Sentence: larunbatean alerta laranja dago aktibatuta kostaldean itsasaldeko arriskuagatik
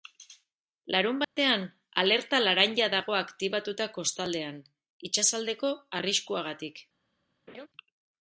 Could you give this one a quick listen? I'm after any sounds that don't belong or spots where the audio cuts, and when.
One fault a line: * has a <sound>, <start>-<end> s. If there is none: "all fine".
* has a dropout, 1.2-1.4 s
* has a laugh, 7.5-7.7 s